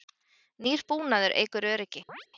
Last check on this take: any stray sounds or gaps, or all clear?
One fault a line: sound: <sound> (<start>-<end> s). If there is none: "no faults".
sound: chirp (2.1-2.3 s)